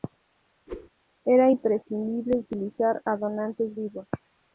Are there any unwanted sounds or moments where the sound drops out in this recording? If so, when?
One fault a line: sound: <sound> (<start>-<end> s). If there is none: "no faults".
sound: whoosh (0.7-0.9 s)